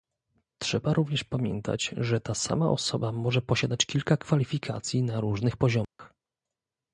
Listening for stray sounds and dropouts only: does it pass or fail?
fail